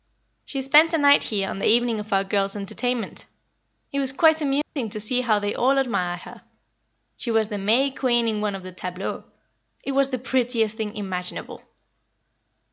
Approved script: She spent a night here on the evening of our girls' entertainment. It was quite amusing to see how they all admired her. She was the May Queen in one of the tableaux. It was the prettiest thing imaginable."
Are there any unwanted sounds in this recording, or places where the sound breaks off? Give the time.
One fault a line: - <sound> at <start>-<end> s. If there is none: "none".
- dropout at 4.6-4.8 s